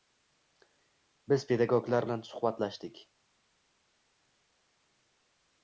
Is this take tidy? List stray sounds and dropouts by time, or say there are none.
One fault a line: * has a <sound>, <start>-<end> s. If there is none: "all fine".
all fine